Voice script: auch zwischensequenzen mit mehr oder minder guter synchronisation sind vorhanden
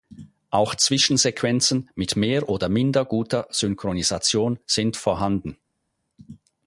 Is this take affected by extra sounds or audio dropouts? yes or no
no